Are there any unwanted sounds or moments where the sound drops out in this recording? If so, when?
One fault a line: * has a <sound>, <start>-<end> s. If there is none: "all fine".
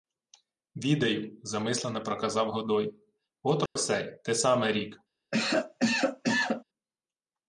* has a dropout, 3.7-3.8 s
* has a cough, 5.3-6.6 s